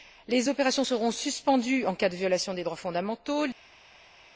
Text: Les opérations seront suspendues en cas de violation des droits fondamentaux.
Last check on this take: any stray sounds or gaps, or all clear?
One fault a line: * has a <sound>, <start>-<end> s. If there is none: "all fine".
all fine